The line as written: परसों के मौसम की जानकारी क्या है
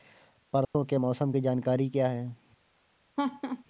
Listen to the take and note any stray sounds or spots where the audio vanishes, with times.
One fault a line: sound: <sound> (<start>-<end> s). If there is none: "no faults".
sound: dropout (0.6-0.7 s)
sound: laugh (3.2-3.6 s)